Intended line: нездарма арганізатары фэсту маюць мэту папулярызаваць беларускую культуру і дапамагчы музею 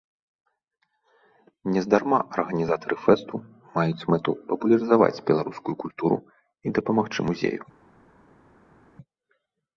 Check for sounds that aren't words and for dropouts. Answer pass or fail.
pass